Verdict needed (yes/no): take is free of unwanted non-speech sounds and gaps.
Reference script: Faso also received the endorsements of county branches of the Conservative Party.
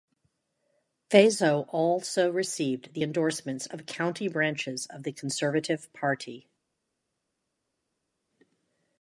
yes